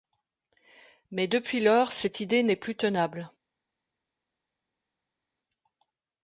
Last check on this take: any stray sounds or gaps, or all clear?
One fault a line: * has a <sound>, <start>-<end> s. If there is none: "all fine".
all fine